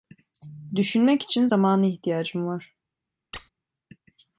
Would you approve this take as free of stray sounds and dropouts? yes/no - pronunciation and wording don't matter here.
no